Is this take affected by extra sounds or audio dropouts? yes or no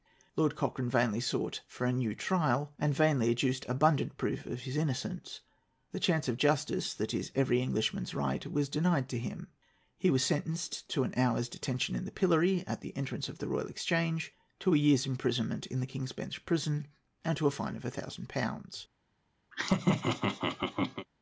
yes